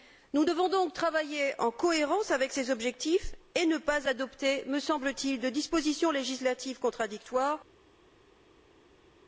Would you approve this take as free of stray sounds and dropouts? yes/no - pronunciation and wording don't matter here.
yes